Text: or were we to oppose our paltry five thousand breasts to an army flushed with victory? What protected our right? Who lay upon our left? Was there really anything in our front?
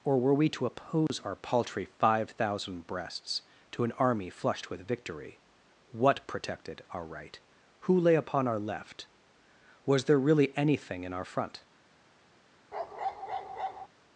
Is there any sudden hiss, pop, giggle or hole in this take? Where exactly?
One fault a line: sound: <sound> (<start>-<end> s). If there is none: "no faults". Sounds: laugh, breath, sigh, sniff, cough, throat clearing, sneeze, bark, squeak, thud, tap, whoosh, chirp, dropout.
sound: dropout (1.1-1.1 s)
sound: bark (12.7-13.9 s)